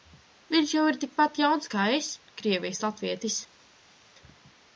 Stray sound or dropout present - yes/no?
no